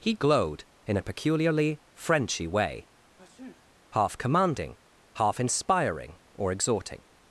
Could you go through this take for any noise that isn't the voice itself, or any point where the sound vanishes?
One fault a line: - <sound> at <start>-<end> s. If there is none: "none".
- sneeze at 3.2-3.7 s